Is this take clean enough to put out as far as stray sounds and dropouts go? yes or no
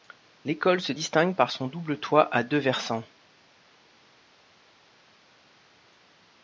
yes